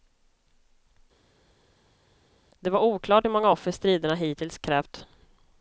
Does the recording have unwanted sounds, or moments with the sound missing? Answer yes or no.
no